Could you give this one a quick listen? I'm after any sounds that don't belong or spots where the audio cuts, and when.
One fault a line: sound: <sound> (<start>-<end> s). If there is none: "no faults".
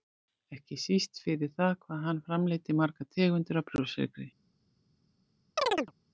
sound: chirp (5.6-5.9 s)